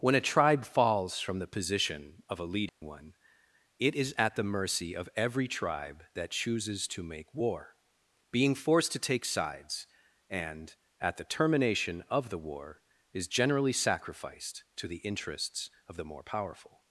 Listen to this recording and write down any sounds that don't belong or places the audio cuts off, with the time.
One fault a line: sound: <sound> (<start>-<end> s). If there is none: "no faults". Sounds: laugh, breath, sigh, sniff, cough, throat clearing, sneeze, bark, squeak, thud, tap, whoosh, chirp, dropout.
sound: dropout (2.7-2.8 s)